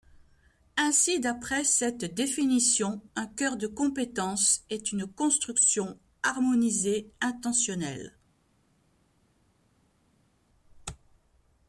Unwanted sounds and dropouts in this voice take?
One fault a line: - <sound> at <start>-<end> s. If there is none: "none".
none